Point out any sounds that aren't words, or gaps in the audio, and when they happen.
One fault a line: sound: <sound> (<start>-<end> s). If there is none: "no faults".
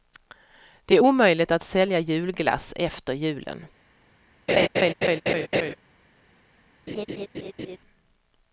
sound: laugh (4.5-5.8 s)
sound: laugh (6.9-7.8 s)